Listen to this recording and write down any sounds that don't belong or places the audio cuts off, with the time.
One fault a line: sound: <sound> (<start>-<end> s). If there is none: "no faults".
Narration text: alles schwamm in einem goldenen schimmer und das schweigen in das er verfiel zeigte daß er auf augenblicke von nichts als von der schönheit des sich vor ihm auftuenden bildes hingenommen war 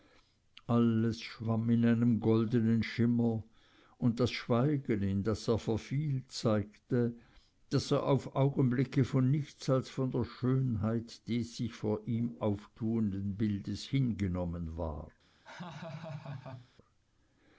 sound: laugh (15.4-16.7 s)